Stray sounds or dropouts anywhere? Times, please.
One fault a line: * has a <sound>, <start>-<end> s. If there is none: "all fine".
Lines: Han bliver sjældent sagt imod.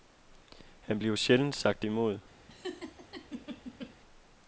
* has a laugh, 2.5-3.9 s